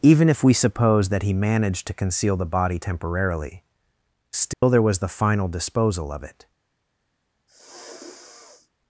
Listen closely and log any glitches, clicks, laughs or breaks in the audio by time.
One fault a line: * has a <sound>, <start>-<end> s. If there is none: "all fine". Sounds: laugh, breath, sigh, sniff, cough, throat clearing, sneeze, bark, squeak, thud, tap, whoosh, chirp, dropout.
* has a dropout, 4.5-4.6 s
* has a sniff, 7.5-8.7 s